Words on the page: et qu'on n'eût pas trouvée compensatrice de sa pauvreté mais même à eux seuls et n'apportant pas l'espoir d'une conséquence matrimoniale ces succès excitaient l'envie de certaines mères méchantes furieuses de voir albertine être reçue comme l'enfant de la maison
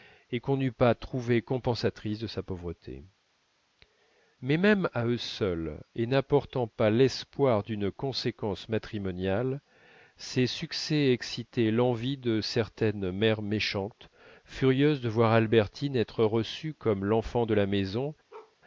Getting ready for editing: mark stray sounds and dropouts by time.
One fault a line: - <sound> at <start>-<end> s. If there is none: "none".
- bark at 18.3-18.6 s